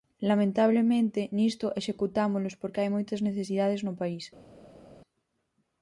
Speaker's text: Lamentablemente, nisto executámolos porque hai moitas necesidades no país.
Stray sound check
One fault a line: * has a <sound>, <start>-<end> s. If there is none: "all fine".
all fine